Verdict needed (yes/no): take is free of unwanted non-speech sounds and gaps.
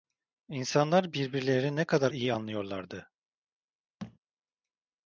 no